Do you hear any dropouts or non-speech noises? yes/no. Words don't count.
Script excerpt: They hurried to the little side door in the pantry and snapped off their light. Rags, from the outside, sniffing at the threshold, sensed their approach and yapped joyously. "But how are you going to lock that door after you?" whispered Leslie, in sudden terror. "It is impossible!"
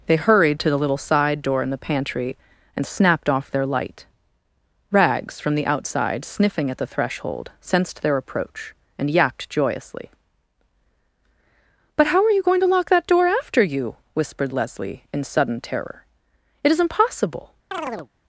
yes